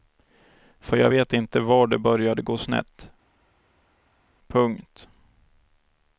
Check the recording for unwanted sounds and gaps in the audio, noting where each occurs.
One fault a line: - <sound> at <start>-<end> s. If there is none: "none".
none